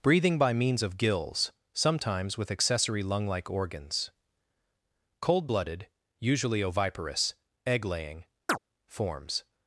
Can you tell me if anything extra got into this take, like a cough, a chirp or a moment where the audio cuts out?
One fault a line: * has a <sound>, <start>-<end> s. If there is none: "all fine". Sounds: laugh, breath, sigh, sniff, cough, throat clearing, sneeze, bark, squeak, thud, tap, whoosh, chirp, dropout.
* has a chirp, 8.5-8.6 s